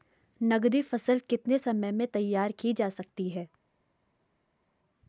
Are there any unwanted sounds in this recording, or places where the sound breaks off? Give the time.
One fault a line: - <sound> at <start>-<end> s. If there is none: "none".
none